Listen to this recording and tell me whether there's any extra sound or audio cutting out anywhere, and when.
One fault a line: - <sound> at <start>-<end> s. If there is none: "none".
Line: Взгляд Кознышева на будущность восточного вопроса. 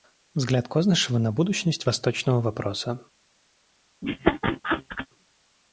- laugh at 4.0-5.1 s